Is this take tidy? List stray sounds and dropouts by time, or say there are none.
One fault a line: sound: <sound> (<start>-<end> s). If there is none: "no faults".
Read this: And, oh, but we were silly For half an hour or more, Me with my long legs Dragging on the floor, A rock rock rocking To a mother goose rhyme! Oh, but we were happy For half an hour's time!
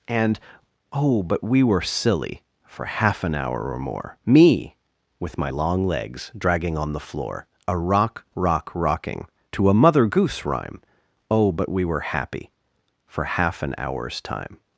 no faults